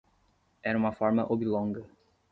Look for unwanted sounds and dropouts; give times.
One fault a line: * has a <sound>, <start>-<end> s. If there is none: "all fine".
all fine